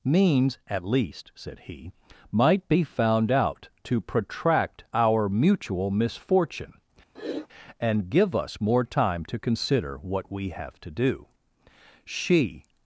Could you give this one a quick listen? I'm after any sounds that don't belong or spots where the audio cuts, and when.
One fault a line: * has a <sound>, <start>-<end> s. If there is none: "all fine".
* has a sniff, 7.2-7.5 s